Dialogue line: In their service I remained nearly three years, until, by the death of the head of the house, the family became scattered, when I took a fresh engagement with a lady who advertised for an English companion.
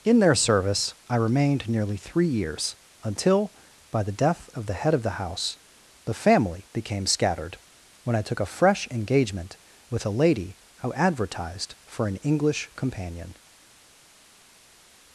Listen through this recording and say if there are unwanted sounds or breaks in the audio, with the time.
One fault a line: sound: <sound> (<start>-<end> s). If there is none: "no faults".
no faults